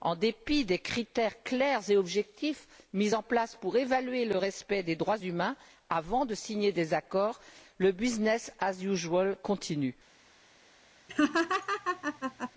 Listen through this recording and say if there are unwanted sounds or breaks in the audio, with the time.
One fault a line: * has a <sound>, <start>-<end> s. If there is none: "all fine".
* has a laugh, 11.1-12.5 s